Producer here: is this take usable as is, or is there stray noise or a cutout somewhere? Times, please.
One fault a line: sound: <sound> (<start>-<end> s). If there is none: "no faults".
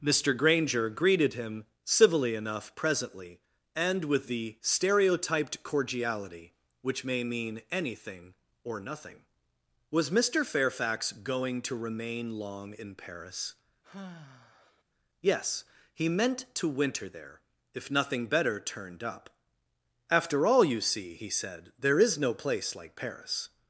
sound: sigh (13.8-14.8 s)